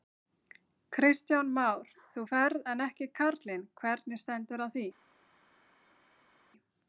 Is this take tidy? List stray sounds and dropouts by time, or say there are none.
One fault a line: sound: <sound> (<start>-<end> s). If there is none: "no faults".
no faults